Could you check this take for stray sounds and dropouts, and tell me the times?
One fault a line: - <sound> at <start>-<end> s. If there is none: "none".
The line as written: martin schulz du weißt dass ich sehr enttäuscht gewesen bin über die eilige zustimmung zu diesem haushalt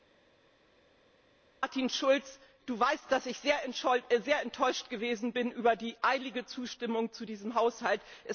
none